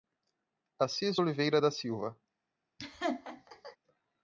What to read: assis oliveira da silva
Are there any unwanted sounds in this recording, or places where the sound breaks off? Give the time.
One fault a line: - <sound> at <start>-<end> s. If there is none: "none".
- laugh at 2.8-3.8 s